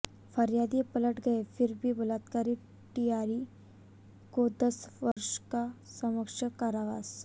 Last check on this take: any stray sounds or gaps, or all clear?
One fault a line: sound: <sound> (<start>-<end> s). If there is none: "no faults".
sound: dropout (5.1-5.2 s)